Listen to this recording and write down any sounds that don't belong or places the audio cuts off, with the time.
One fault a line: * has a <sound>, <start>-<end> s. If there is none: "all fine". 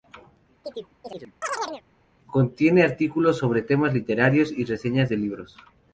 * has a chirp, 0.6-1.8 s